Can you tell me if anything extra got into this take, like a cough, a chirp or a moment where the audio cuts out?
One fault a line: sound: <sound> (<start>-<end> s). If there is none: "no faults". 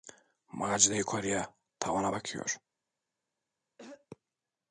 sound: throat clearing (3.8-4.1 s)